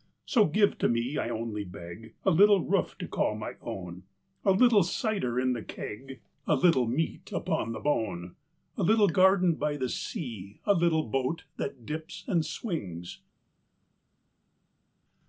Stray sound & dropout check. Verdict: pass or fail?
pass